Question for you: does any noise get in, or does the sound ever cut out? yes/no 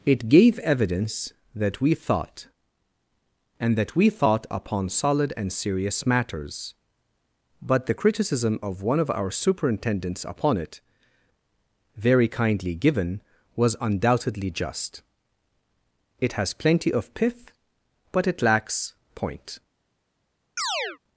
yes